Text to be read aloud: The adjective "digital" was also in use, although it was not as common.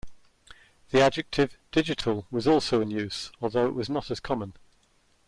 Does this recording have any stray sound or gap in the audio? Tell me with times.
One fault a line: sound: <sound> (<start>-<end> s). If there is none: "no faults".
no faults